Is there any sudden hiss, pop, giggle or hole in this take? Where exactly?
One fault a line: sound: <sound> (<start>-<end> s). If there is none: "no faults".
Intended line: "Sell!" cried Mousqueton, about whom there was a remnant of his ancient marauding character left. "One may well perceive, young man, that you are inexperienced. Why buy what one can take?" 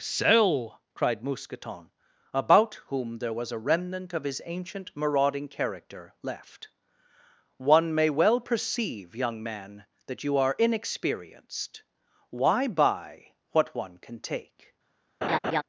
sound: laugh (15.2-15.6 s)